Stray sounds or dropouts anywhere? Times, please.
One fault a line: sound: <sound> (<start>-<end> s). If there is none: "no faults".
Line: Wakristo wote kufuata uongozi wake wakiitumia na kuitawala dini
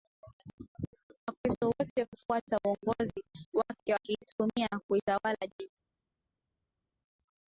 no faults